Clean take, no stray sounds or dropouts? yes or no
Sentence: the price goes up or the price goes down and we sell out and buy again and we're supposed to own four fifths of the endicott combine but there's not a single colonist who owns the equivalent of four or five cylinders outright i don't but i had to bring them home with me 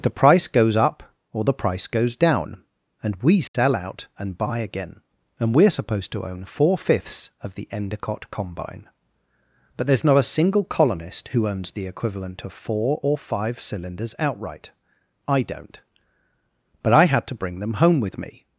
no